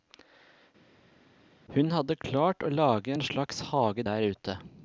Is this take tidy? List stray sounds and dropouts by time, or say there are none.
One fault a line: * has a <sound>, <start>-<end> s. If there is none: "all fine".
all fine